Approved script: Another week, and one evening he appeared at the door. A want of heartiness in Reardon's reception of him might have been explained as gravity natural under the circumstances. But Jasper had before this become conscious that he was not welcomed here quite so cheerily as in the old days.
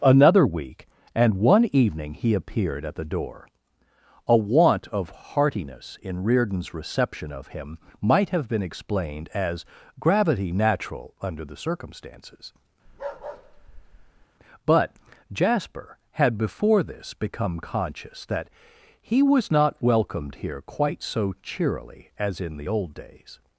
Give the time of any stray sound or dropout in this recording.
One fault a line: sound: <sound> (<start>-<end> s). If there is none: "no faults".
sound: bark (12.9-14.3 s)